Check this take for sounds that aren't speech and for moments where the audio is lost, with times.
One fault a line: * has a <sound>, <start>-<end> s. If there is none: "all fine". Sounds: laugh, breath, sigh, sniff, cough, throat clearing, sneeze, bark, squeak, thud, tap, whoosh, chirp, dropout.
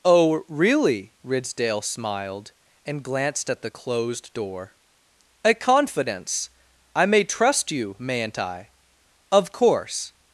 all fine